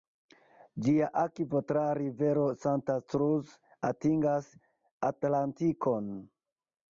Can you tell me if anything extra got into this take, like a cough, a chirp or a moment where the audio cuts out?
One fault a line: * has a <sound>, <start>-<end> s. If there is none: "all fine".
all fine